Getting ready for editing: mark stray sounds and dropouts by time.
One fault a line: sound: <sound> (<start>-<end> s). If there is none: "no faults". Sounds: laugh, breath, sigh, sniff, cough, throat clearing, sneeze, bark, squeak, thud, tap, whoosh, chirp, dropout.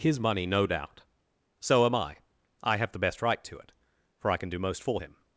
no faults